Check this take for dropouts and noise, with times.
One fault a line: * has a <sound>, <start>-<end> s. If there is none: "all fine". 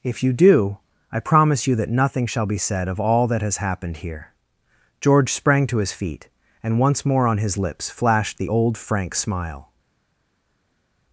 all fine